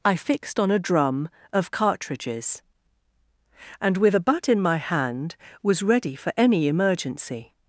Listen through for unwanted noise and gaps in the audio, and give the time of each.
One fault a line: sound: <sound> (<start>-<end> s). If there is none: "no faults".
no faults